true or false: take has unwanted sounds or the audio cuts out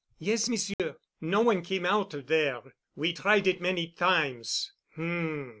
true